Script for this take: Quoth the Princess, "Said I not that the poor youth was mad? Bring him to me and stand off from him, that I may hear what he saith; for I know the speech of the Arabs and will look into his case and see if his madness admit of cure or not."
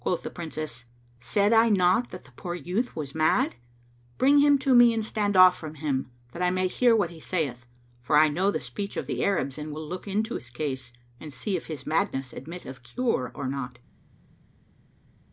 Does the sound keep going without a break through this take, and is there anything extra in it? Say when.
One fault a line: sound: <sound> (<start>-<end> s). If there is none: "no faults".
no faults